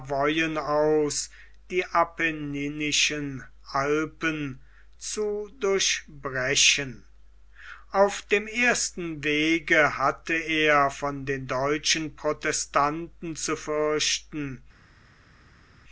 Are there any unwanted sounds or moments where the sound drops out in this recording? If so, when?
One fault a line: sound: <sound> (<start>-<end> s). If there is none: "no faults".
no faults